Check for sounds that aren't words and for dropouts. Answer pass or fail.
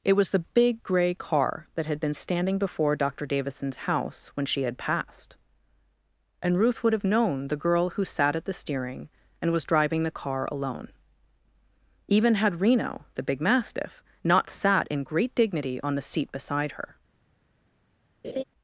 fail